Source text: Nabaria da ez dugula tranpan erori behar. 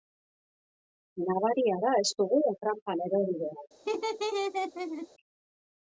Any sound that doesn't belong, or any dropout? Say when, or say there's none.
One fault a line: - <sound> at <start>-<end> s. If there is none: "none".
- laugh at 3.8-5.1 s